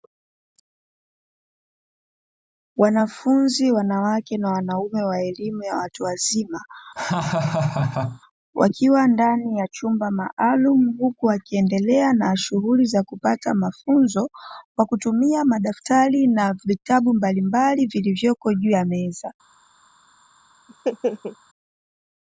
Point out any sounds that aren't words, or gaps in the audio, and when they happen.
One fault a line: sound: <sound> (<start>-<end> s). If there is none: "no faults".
sound: laugh (7.0-8.2 s)
sound: laugh (20.7-21.4 s)